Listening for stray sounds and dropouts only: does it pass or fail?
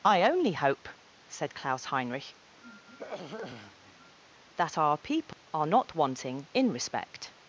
fail